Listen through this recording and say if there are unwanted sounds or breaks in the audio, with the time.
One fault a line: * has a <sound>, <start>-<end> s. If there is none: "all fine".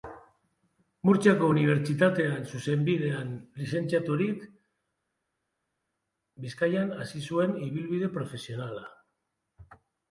all fine